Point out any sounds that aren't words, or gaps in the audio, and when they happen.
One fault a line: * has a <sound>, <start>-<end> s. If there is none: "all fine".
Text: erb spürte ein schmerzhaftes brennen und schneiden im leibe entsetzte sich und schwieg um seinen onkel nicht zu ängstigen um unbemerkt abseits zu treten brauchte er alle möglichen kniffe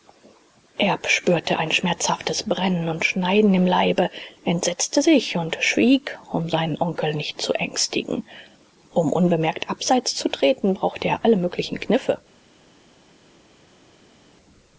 all fine